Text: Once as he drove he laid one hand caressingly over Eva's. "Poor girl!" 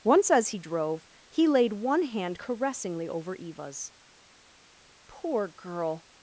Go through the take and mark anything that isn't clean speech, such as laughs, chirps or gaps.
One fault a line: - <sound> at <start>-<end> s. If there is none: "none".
none